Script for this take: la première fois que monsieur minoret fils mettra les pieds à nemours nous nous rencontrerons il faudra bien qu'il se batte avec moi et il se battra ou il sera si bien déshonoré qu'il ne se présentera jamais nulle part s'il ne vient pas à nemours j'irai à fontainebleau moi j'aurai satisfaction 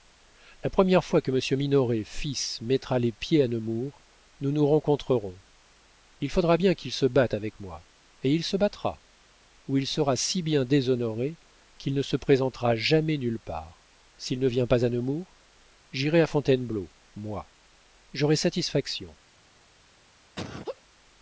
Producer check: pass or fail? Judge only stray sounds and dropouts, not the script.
fail